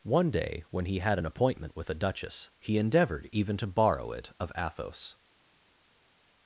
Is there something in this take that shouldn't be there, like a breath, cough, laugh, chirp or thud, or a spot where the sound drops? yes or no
no